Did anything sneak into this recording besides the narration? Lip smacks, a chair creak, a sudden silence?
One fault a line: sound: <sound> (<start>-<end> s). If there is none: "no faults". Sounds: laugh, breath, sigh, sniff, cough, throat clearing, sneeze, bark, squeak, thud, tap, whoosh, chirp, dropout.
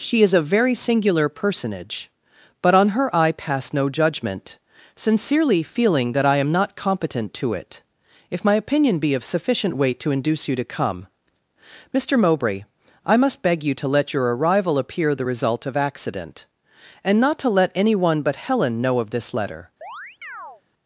sound: chirp (19.8-20.6 s)